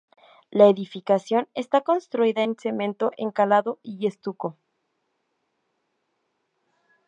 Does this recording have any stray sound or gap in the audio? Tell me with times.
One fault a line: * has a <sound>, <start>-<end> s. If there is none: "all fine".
all fine